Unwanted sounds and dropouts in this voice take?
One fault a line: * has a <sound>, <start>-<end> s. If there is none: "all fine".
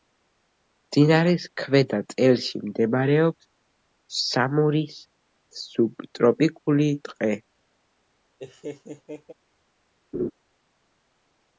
* has a laugh, 8.4-9.3 s
* has a laugh, 10.1-10.3 s